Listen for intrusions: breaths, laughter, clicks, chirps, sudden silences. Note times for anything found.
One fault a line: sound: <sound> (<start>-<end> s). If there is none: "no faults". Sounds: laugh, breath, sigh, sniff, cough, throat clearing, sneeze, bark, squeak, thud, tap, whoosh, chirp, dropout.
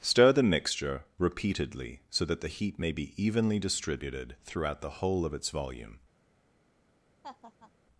sound: laugh (7.2-7.7 s)